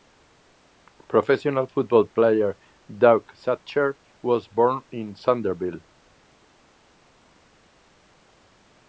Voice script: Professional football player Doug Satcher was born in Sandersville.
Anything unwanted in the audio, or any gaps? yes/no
no